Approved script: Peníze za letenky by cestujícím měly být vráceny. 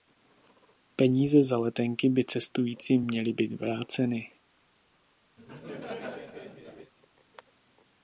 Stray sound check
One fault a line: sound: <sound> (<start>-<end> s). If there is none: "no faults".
sound: laugh (5.4-6.9 s)